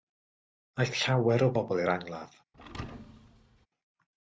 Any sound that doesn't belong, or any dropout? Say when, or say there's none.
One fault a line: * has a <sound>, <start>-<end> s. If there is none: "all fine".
* has a thud, 2.5-3.7 s